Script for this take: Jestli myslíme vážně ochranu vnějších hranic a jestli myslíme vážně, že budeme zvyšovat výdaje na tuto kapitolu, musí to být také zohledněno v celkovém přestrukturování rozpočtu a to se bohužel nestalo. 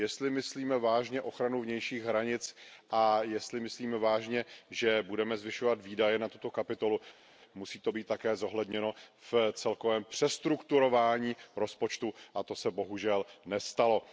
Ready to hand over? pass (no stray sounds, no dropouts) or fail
pass